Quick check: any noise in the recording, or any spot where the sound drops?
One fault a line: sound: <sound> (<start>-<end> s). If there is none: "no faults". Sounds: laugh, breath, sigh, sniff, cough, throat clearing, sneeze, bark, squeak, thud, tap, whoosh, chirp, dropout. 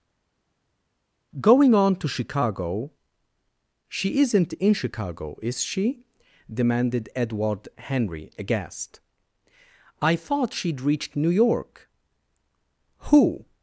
no faults